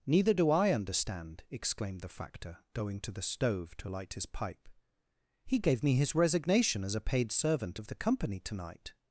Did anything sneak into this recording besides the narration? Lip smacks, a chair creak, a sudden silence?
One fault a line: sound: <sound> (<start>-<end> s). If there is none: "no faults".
no faults